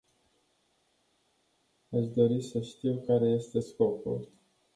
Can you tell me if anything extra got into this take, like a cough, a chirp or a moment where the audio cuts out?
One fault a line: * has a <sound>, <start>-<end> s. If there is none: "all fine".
all fine